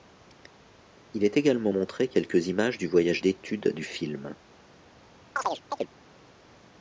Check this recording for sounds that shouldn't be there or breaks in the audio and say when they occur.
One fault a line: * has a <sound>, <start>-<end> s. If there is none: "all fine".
* has a chirp, 5.4-5.9 s